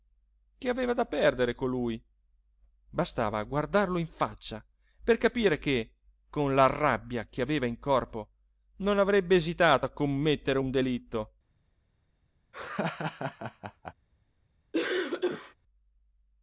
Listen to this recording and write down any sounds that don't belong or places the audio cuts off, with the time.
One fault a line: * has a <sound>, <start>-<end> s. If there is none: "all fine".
* has a laugh, 12.5-13.9 s
* has a cough, 14.7-15.5 s